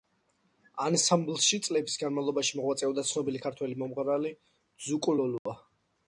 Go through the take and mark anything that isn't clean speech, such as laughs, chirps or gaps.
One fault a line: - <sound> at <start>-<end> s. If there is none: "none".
- dropout at 5.4-5.5 s